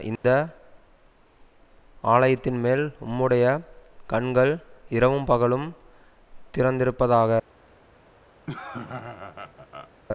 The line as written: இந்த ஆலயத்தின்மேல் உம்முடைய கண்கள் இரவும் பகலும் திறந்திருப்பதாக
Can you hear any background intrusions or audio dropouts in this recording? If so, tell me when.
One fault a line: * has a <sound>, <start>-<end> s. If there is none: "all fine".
* has a dropout, 0.2-0.2 s
* has a laugh, 8.5-9.9 s